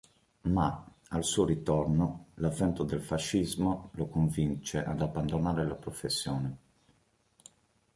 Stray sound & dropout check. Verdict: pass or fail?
pass